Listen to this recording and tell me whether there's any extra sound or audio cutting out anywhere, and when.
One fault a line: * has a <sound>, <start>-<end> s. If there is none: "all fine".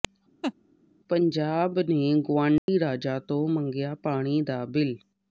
* has a laugh, 0.4-0.5 s
* has a dropout, 2.6-2.7 s